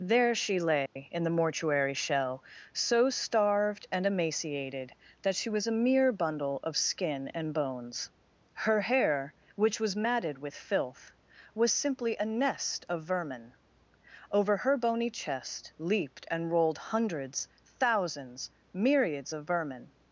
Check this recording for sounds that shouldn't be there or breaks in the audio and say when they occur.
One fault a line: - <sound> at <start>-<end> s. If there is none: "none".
- dropout at 0.9-1.0 s